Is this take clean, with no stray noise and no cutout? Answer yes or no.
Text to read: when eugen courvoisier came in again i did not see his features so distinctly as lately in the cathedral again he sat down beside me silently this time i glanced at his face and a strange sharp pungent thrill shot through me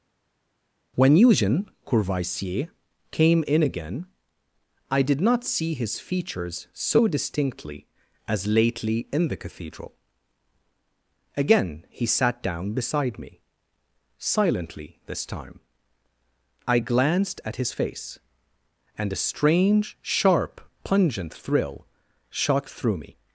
yes